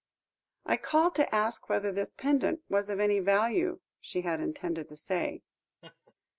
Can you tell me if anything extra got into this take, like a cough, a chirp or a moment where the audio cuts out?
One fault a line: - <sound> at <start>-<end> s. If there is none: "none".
- laugh at 5.8-6.1 s